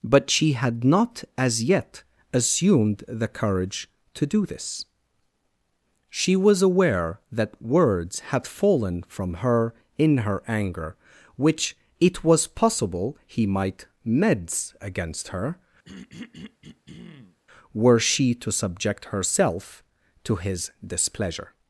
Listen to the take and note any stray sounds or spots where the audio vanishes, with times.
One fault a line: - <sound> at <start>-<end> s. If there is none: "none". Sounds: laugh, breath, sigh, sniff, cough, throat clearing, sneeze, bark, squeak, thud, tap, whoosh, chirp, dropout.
- throat clearing at 15.8-17.4 s